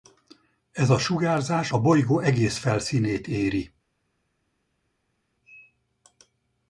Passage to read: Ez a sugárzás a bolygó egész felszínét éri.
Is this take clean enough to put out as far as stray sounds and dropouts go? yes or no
yes